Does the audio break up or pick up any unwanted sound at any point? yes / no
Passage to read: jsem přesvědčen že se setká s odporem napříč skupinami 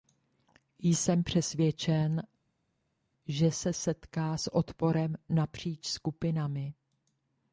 no